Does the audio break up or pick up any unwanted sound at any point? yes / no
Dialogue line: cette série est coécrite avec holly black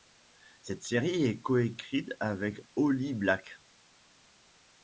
no